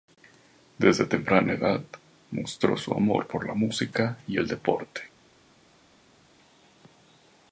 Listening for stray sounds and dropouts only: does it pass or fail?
pass